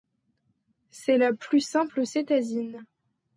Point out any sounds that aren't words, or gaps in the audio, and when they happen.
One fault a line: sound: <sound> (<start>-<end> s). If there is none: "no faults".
no faults